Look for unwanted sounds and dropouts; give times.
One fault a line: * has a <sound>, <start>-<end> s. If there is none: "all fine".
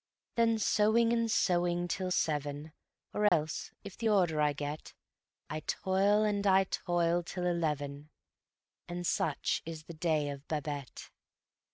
* has a dropout, 3.3-3.3 s